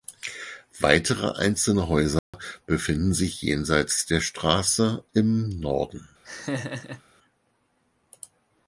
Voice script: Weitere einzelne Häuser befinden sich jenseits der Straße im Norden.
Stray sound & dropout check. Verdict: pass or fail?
fail